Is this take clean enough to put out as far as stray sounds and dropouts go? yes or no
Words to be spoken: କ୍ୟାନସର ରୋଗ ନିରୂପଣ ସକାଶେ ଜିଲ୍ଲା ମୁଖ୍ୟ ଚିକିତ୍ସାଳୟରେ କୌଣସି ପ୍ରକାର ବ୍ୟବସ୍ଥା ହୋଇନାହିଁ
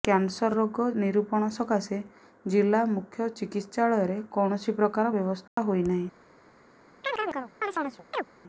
no